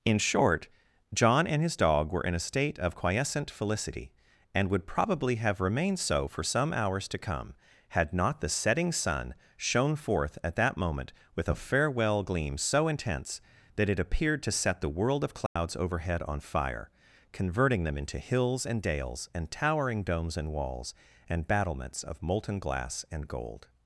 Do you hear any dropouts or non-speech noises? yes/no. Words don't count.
yes